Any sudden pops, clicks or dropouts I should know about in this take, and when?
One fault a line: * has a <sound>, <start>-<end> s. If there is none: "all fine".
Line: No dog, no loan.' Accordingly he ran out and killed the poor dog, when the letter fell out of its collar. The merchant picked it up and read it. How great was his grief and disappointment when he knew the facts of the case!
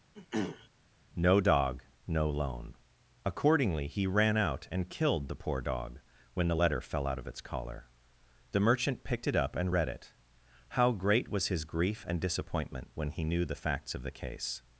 * has a throat clearing, 0.1-0.7 s